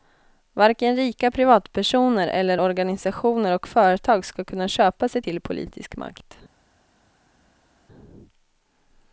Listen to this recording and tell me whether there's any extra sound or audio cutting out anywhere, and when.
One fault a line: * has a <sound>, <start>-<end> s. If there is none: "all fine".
all fine